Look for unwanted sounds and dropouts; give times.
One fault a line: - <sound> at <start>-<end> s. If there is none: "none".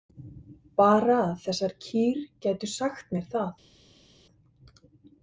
none